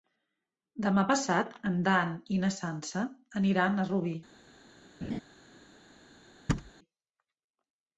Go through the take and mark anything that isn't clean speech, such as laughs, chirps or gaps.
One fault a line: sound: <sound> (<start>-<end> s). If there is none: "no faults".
sound: laugh (5.0-5.2 s)
sound: thud (6.5-6.7 s)